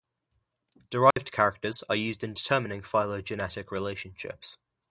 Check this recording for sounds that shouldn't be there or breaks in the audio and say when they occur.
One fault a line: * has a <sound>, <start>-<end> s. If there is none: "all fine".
* has a dropout, 1.1-1.2 s